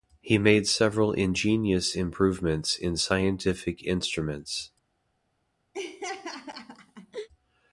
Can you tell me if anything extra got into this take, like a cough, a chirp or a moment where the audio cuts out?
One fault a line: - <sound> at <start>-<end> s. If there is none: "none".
- laugh at 5.7-7.3 s